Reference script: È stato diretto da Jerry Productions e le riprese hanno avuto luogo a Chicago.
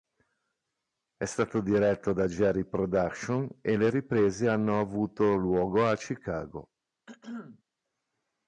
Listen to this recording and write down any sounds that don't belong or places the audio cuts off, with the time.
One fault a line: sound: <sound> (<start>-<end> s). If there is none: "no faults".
sound: throat clearing (7.1-7.6 s)